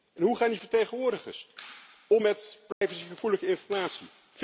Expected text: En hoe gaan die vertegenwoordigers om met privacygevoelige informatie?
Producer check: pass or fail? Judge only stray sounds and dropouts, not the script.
fail